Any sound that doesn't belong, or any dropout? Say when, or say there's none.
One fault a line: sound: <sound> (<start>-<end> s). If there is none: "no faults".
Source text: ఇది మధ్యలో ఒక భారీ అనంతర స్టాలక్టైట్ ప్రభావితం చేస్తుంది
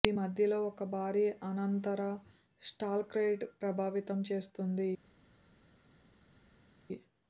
no faults